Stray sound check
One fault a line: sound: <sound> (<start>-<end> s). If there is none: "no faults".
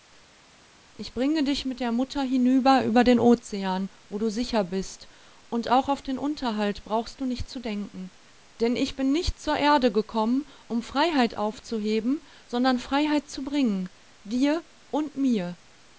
no faults